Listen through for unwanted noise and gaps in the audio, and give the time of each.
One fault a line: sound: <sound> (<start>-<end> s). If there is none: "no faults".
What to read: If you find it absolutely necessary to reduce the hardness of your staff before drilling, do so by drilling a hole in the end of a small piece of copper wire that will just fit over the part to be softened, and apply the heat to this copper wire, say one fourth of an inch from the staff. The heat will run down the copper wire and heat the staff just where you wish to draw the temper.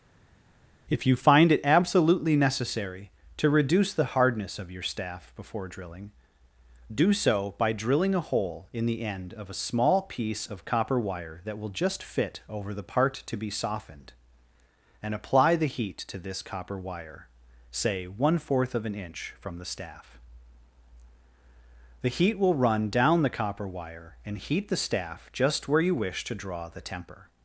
no faults